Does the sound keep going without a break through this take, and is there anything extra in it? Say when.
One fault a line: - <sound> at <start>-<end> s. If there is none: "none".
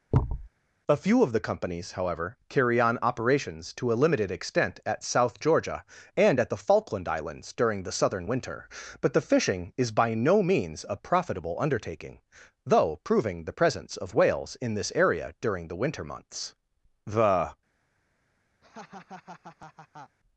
- thud at 0.1-0.5 s
- laugh at 18.6-20.2 s